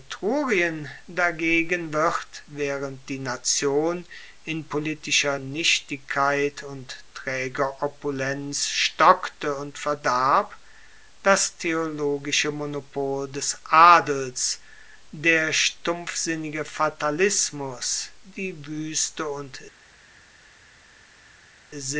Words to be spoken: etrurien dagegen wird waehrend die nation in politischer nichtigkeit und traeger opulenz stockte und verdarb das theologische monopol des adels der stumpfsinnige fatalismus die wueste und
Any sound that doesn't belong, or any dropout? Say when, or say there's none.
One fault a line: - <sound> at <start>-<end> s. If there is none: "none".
none